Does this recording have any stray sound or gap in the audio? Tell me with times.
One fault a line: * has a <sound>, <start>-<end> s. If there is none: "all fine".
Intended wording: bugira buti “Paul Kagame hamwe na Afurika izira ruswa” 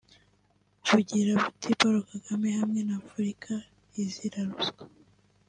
all fine